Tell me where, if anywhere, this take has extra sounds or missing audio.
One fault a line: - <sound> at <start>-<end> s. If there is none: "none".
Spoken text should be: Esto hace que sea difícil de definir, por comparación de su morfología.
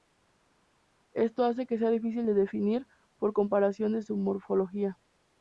none